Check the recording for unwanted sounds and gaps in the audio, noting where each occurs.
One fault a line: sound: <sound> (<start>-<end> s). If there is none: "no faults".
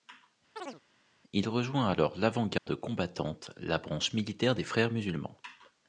sound: chirp (0.6-0.8 s)
sound: dropout (2.6-2.7 s)